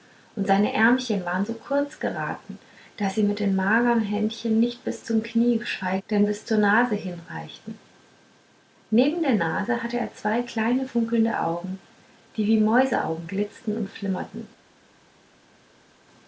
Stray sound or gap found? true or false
false